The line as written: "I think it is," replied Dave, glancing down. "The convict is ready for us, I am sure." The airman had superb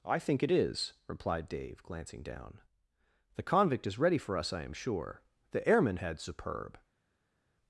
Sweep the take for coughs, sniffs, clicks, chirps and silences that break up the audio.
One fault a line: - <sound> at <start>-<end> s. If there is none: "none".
none